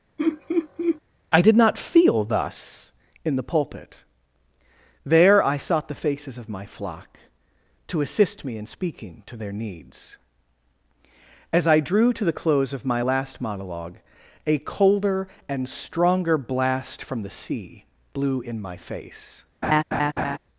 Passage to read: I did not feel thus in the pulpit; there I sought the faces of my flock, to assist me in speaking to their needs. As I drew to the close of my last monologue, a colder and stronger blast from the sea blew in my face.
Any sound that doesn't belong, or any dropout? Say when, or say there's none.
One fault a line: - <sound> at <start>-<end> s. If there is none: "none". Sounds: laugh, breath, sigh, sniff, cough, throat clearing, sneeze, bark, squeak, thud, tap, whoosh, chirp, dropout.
- laugh at 0.2-1.0 s
- laugh at 19.6-20.4 s